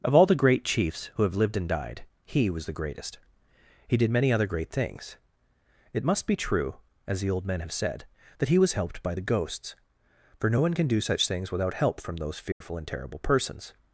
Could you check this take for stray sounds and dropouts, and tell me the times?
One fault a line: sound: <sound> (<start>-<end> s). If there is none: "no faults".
sound: dropout (12.5-12.6 s)